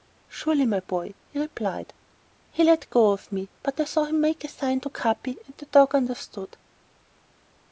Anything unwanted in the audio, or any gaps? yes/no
no